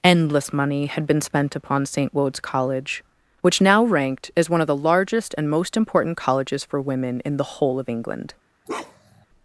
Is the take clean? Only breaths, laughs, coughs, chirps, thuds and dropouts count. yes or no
no